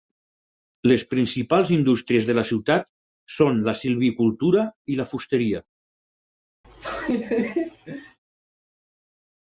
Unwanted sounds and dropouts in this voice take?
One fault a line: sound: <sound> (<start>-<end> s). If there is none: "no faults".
sound: laugh (6.6-8.2 s)